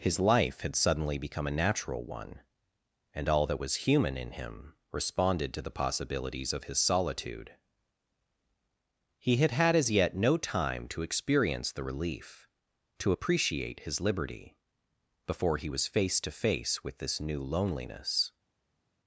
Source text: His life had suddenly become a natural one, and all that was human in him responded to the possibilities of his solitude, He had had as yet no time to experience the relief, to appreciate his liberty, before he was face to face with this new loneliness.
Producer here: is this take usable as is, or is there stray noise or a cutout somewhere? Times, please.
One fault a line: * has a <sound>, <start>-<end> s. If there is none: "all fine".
all fine